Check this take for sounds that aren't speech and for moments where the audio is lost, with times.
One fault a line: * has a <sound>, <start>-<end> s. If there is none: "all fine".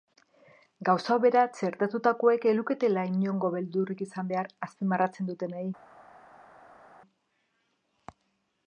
all fine